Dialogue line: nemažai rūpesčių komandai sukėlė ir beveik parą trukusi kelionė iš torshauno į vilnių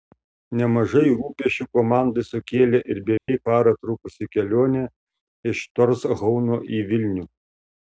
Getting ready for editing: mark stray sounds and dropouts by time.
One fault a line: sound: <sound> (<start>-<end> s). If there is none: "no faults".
sound: dropout (3.2-3.3 s)